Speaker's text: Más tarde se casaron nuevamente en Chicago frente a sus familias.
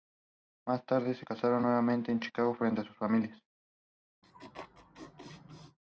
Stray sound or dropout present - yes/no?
yes